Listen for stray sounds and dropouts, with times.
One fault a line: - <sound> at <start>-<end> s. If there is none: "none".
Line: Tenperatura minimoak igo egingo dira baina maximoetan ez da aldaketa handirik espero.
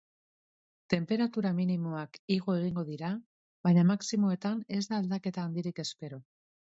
none